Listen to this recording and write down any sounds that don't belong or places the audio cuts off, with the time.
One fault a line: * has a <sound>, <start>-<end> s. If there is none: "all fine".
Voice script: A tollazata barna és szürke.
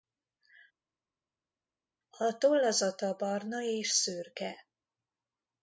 all fine